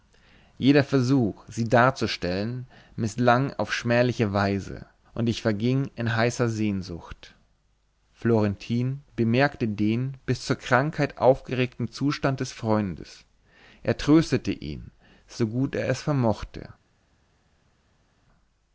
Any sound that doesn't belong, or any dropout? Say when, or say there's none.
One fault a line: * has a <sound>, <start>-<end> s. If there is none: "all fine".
all fine